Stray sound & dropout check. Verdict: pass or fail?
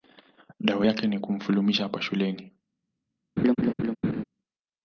fail